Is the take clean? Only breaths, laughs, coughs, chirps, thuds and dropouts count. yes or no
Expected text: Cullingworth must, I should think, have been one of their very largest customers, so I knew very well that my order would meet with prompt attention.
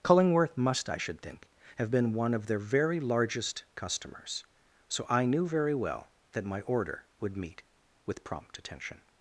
yes